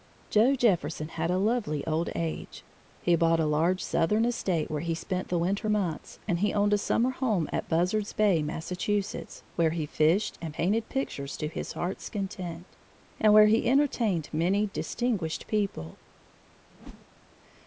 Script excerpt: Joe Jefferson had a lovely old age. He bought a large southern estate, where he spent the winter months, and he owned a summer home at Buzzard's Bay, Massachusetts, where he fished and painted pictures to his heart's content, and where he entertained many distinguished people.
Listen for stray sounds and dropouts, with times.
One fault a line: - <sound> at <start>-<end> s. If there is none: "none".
- whoosh at 16.7-17.1 s